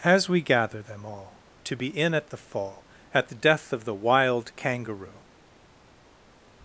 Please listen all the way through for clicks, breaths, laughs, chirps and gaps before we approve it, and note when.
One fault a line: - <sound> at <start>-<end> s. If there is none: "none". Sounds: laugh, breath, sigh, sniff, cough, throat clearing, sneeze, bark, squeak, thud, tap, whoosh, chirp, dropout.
none